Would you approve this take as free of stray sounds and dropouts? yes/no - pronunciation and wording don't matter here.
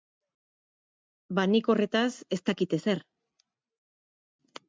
yes